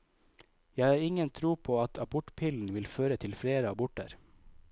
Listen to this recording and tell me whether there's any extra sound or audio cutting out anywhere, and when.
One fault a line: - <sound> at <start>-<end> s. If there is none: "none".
none